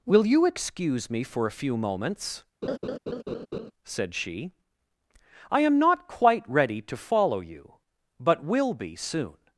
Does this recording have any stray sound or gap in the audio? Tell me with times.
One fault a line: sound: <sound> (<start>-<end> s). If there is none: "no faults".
sound: laugh (2.6-3.7 s)